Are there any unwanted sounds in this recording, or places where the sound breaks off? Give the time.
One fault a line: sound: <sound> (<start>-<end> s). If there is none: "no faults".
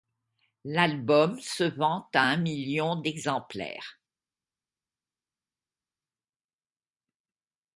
no faults